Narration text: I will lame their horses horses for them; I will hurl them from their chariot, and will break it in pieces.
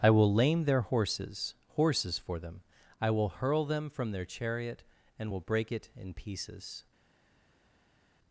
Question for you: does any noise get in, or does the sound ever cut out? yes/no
no